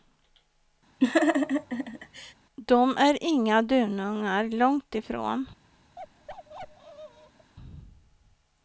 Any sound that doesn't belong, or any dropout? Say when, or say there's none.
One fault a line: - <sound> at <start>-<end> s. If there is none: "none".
- laugh at 1.0-2.3 s
- bark at 6.0-7.5 s